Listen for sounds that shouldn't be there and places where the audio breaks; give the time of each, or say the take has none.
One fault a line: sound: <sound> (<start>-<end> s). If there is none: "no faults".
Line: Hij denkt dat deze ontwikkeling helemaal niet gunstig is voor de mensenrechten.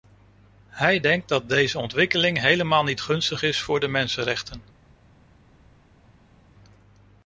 no faults